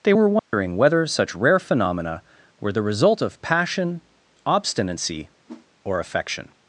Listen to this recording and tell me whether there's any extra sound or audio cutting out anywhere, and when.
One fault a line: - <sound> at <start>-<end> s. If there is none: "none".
- dropout at 0.4-0.5 s
- whoosh at 5.5-5.7 s